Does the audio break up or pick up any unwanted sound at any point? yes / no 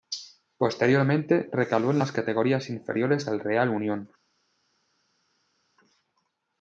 no